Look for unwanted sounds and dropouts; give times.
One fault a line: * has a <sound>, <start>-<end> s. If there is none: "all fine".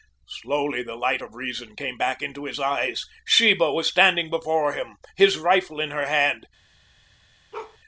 * has a bark, 7.5-7.8 s